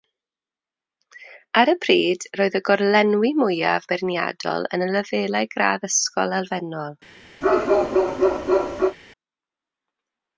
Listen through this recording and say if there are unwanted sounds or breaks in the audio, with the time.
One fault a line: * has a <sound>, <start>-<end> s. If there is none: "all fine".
* has a bark, 7.4-9.0 s